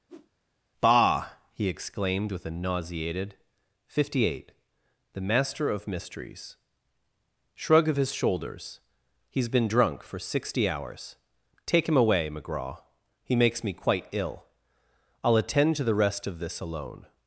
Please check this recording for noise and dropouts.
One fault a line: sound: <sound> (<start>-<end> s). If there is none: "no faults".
sound: whoosh (0.1-0.3 s)